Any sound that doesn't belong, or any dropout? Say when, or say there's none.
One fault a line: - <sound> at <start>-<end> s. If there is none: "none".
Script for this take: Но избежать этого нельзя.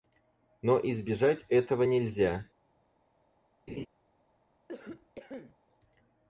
- laugh at 3.7-3.9 s
- cough at 4.7-5.6 s